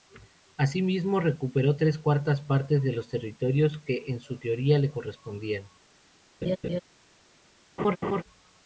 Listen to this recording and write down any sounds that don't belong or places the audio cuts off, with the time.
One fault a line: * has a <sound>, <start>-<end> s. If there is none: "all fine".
* has a laugh, 6.4-6.8 s
* has a laugh, 7.8-8.2 s